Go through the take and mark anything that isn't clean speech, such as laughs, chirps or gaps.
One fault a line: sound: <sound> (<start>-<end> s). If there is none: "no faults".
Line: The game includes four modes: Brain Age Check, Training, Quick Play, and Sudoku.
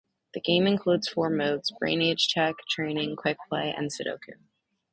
no faults